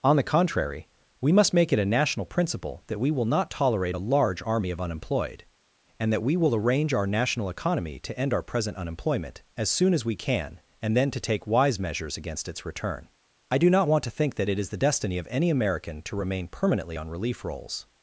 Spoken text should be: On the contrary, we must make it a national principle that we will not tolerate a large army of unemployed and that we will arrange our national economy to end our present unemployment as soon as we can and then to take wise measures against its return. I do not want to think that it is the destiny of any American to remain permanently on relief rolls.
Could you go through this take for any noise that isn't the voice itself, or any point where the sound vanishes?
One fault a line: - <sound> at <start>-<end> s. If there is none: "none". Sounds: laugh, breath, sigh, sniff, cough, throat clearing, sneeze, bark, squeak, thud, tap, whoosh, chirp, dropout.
none